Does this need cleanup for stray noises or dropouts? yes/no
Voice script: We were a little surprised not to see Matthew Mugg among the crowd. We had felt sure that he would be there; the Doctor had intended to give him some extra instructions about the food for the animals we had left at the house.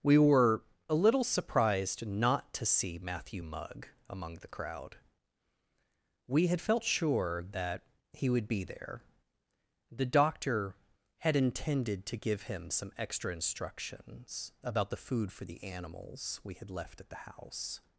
no